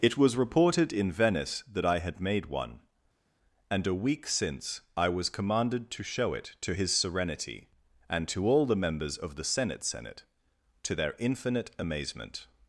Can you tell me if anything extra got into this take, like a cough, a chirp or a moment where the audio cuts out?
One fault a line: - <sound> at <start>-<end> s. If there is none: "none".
none